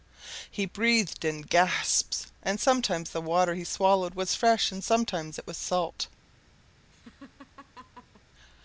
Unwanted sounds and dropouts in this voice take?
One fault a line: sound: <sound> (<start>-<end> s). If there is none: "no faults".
sound: laugh (6.9-8.2 s)